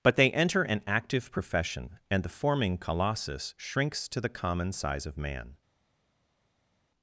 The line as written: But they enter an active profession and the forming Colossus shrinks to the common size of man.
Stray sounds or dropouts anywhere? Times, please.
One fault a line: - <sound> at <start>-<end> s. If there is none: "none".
none